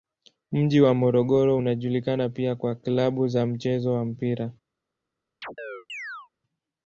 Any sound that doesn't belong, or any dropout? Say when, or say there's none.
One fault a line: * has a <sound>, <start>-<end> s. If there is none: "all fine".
* has a chirp, 5.4-6.3 s